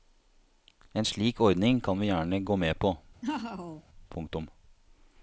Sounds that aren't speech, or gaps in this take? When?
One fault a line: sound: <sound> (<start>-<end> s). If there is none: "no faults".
sound: laugh (3.2-3.8 s)